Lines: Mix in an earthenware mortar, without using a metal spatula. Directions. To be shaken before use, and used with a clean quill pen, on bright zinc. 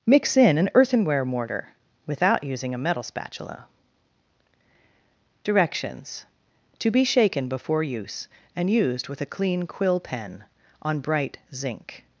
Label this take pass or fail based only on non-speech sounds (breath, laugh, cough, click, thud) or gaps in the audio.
pass